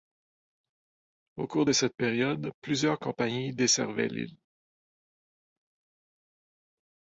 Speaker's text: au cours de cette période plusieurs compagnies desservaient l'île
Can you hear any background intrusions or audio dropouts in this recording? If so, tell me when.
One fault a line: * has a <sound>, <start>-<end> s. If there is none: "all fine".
all fine